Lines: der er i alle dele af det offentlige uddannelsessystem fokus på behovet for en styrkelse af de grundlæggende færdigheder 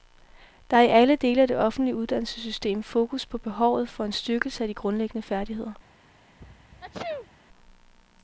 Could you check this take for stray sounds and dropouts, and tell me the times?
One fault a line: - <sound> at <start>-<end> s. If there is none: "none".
- sneeze at 6.4-7.4 s